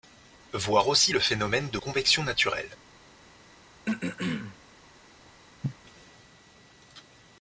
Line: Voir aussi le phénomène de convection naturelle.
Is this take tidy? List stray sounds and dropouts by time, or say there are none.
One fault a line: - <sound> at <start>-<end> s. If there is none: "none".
- throat clearing at 3.9-4.6 s
- cough at 5.6-5.7 s